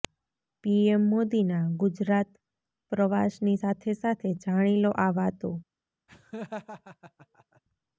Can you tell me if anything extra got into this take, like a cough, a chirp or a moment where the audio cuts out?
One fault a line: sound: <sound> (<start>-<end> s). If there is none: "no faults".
sound: laugh (6.1-7.6 s)